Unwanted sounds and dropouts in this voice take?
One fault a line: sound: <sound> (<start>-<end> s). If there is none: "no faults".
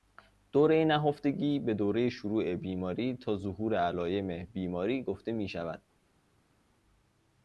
no faults